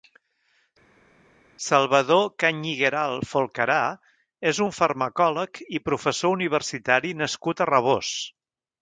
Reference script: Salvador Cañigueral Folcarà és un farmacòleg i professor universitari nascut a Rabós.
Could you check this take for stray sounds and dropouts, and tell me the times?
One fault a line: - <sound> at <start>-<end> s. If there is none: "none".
none